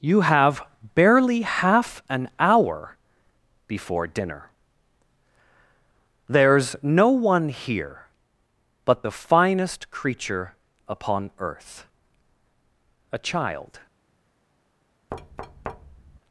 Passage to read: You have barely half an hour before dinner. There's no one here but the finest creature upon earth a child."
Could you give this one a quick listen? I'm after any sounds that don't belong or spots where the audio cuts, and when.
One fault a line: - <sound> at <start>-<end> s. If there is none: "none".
- thud at 15.1-16.2 s